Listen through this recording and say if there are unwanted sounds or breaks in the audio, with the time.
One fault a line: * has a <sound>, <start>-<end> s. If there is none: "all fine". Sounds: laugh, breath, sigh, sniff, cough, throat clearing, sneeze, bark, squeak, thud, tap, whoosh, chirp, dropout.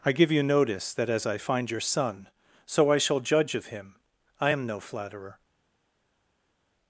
all fine